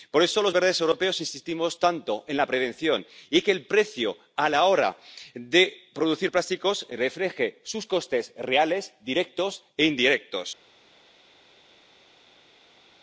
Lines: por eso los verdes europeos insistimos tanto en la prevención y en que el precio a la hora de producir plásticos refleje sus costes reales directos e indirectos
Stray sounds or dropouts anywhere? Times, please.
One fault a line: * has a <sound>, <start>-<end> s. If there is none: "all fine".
all fine